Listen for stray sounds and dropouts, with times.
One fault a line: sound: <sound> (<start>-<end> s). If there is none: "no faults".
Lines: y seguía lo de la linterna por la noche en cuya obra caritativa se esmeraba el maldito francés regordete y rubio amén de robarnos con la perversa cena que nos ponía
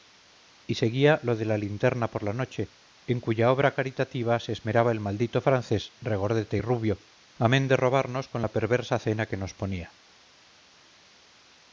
no faults